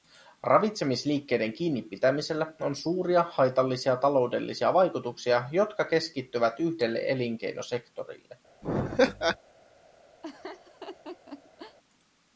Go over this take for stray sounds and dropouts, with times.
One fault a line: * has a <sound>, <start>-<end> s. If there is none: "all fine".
* has a laugh, 8.6-9.4 s
* has a laugh, 10.2-11.8 s